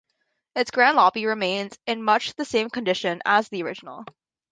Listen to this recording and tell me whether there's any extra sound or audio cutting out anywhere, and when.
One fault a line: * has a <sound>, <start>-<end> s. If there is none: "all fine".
all fine